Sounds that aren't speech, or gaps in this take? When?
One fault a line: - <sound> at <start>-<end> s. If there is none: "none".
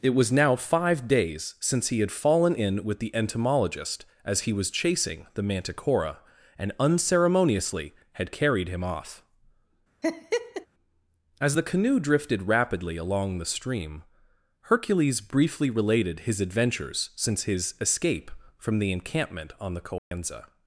- laugh at 10.0-10.7 s
- dropout at 20.0-20.1 s